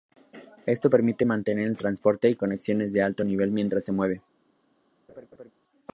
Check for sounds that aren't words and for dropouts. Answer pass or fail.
fail